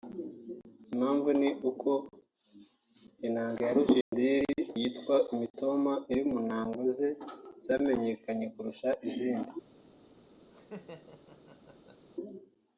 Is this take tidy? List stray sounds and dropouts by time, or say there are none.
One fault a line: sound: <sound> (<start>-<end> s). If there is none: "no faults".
sound: dropout (4.0-4.1 s)
sound: laugh (10.5-12.1 s)